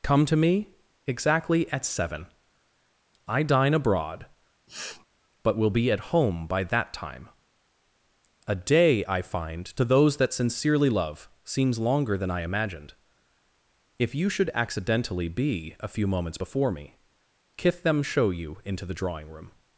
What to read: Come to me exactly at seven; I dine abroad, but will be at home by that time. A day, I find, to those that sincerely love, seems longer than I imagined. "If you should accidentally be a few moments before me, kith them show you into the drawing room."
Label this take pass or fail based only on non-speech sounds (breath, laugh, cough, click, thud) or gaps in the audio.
fail